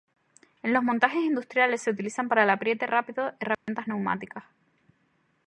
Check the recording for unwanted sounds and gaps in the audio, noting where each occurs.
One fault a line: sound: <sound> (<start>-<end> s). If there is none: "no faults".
sound: dropout (3.5-3.7 s)